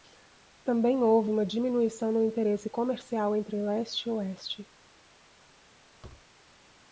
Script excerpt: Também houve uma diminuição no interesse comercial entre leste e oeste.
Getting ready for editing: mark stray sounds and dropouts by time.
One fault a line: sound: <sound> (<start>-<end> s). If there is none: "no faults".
sound: thud (6.0-6.3 s)